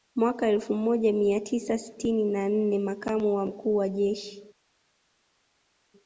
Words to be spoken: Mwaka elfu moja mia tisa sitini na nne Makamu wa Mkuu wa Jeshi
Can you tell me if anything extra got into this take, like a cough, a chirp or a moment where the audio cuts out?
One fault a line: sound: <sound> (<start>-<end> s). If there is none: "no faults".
no faults